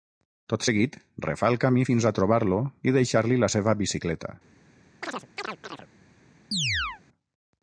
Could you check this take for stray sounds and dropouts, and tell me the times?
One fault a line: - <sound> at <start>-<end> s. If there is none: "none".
- chirp at 5.0-5.9 s
- chirp at 6.5-7.0 s